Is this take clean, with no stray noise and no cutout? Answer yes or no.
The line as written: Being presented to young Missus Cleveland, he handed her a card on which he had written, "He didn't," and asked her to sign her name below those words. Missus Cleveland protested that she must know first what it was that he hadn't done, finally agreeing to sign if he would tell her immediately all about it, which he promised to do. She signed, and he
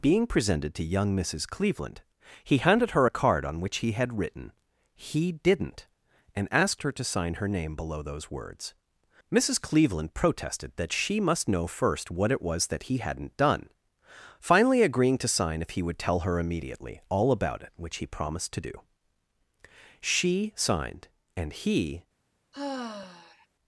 no